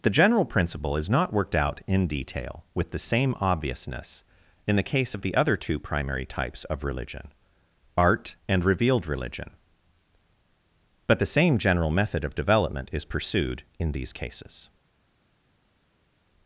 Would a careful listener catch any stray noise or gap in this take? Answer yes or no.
no